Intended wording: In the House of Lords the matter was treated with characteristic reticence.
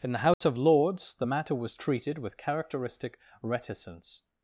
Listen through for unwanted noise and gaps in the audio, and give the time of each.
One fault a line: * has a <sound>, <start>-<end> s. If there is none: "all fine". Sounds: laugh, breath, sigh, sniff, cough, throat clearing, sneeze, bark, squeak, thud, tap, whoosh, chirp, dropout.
* has a dropout, 0.3-0.4 s